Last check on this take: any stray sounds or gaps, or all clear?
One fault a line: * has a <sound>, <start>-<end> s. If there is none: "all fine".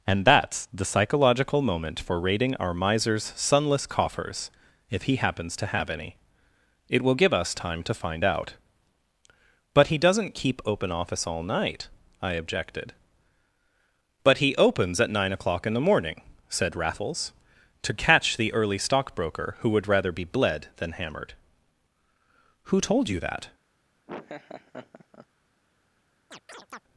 * has a laugh, 24.1-25.3 s
* has a chirp, 26.3-26.8 s